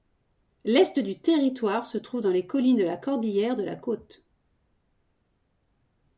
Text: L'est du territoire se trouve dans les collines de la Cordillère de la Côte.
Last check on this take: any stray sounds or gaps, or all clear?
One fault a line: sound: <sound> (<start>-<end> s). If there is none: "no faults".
no faults